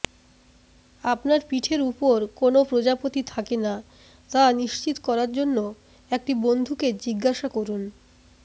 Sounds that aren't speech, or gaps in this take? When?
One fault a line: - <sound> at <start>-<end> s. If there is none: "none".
none